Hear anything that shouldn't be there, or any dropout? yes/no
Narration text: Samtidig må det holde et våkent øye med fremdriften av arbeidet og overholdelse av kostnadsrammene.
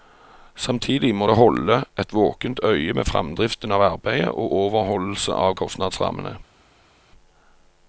no